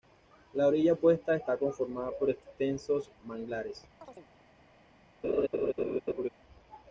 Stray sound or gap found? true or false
true